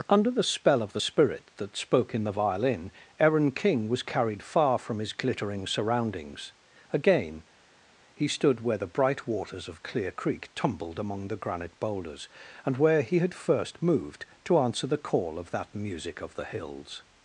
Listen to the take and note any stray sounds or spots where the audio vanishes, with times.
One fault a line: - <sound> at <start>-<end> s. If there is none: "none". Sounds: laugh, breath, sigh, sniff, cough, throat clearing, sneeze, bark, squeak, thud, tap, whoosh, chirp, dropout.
none